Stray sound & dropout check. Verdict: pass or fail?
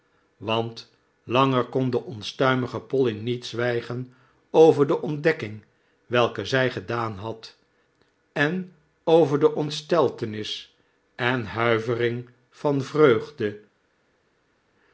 pass